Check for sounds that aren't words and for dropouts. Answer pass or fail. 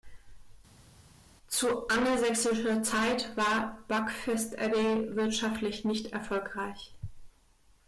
pass